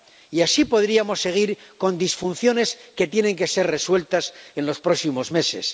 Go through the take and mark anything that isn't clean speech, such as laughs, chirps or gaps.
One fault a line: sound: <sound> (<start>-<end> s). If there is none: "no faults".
no faults